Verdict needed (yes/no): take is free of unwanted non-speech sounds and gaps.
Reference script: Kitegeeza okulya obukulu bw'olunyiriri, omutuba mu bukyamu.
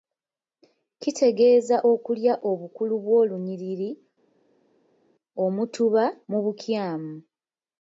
yes